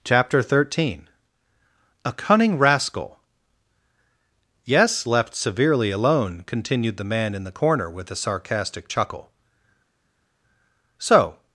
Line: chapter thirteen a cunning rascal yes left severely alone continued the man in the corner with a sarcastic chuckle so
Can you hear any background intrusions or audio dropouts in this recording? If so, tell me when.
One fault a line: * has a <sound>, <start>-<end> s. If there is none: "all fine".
all fine